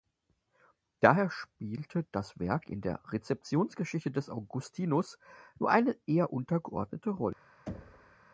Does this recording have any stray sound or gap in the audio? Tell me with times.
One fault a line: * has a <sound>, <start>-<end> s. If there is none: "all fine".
* has a thud, 7.7-8.2 s